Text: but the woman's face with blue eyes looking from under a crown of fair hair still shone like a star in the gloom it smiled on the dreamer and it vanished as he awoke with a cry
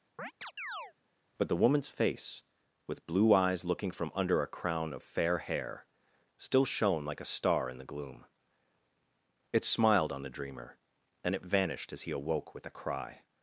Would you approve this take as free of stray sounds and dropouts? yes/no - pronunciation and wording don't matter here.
no